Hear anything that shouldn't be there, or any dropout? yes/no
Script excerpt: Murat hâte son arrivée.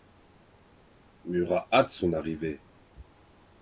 no